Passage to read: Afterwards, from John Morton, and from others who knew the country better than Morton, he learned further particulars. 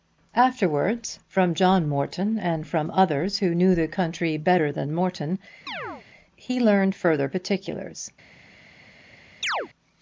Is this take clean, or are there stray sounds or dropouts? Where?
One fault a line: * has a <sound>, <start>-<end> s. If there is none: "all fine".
* has a chirp, 5.7-6.1 s
* has a chirp, 9.4-9.7 s